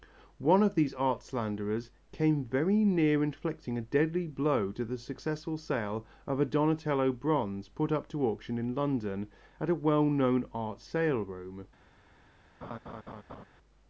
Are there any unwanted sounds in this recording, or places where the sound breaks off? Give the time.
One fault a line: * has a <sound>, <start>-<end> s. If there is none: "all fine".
* has a laugh, 12.6-13.5 s